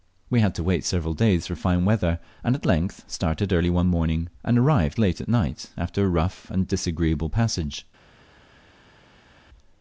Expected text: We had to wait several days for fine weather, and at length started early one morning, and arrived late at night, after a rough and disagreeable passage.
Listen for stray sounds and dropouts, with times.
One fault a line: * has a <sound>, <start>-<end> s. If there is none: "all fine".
all fine